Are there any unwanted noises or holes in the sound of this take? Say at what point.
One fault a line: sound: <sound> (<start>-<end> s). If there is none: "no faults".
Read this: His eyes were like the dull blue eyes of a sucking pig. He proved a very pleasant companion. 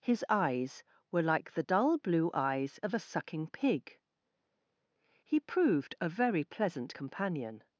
no faults